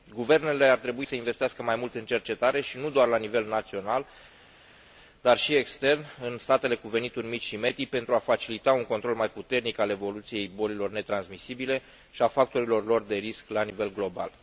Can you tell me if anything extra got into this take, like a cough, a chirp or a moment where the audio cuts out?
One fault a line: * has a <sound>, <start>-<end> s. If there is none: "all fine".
all fine